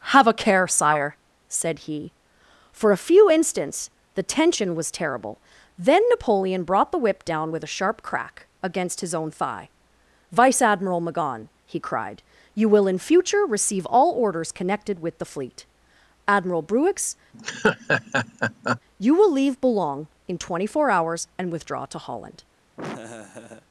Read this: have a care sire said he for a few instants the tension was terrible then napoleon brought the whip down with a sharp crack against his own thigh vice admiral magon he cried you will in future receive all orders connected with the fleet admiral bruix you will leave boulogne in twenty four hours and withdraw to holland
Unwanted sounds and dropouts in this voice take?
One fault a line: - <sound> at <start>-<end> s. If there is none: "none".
- laugh at 17.3-18.8 s
- laugh at 22.8-23.7 s